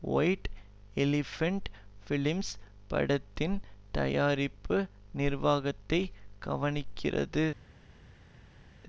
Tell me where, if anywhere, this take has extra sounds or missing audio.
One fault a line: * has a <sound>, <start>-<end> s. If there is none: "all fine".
all fine